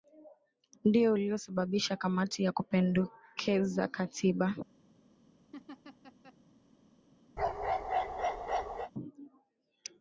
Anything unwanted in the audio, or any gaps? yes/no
yes